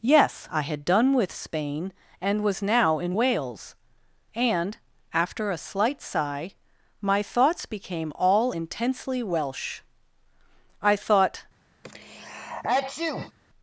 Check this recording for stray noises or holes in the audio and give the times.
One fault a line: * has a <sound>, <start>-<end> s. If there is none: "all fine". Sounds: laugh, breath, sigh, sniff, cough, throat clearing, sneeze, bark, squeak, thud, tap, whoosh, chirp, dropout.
* has a sneeze, 11.8-13.3 s